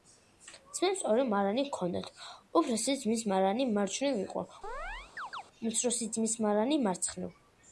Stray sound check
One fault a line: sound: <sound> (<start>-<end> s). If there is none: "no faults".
sound: chirp (4.6-5.4 s)